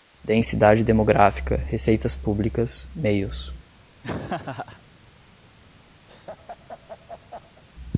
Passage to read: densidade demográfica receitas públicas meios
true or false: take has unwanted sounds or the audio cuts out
true